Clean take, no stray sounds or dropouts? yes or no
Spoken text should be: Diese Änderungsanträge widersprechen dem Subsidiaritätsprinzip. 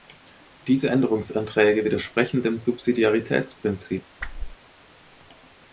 no